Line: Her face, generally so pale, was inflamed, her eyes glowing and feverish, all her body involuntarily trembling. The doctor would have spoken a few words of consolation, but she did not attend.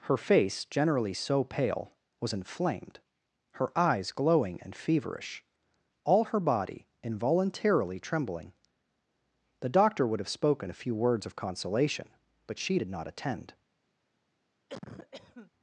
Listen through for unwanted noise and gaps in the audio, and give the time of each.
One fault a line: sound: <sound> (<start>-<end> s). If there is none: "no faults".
sound: cough (14.7-15.5 s)